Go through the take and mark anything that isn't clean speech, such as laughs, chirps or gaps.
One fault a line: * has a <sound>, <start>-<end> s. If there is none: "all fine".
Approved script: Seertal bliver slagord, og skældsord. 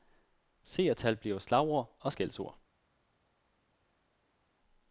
all fine